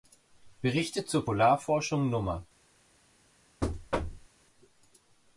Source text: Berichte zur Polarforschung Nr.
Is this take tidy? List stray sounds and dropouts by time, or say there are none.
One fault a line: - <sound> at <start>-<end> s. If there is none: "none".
- thud at 3.6-4.3 s